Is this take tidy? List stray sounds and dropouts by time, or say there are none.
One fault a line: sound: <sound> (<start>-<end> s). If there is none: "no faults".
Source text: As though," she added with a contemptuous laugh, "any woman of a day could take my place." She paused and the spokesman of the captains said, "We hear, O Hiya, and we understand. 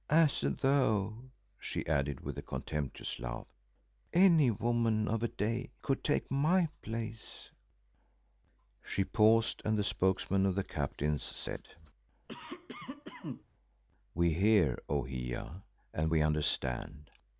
sound: cough (12.3-13.4 s)